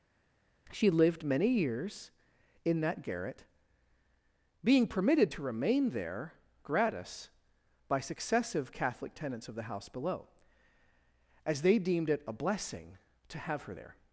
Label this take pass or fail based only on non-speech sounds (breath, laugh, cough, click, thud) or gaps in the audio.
pass